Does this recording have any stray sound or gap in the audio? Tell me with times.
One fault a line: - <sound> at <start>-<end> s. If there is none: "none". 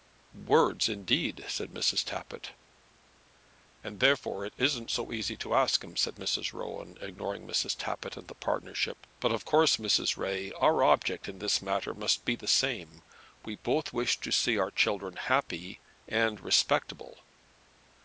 none